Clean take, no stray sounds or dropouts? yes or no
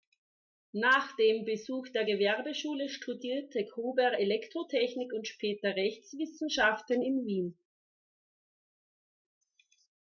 yes